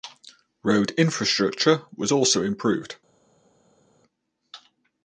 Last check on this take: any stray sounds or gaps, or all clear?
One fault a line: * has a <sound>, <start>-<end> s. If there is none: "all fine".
all fine